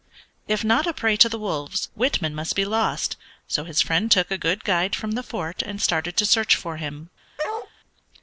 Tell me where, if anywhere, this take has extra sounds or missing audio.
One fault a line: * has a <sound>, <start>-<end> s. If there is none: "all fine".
* has a bark, 7.4-7.7 s